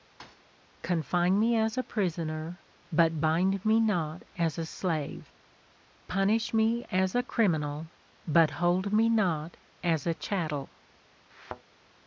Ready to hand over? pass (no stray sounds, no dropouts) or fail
fail